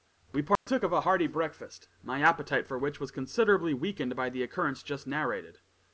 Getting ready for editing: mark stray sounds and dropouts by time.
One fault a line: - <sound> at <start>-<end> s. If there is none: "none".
- dropout at 0.6-0.7 s